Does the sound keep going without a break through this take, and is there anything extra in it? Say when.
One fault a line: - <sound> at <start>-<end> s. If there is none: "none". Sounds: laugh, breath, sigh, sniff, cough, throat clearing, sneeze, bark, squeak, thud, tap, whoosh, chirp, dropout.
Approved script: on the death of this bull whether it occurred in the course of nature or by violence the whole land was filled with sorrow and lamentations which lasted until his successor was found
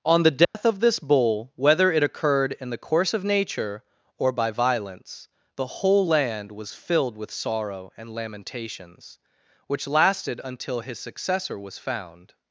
- dropout at 0.4-0.5 s